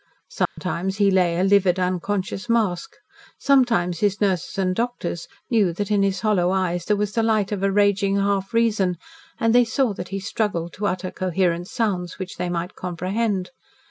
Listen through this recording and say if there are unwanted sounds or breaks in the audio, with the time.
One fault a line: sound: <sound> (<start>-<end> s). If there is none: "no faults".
sound: dropout (0.5-0.6 s)